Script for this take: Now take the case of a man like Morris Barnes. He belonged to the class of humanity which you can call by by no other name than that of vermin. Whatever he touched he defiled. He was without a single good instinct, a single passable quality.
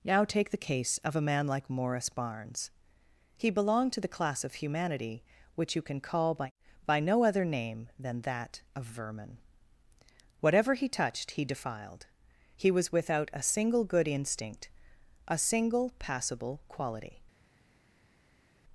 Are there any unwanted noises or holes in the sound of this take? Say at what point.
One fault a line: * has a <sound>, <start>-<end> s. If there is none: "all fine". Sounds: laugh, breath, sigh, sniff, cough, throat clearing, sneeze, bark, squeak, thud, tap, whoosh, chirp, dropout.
all fine